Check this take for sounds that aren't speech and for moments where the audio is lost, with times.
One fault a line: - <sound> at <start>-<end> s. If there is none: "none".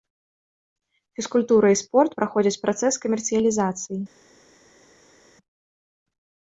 none